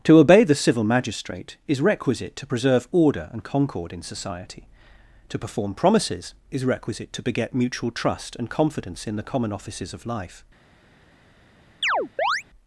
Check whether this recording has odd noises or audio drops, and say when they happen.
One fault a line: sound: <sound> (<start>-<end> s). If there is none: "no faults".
sound: chirp (11.8-12.4 s)